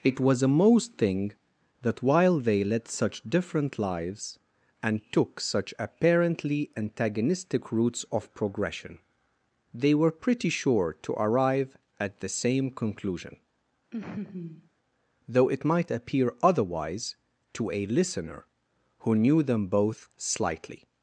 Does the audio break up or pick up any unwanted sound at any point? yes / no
yes